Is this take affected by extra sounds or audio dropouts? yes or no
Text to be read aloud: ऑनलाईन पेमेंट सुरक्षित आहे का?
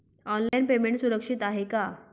yes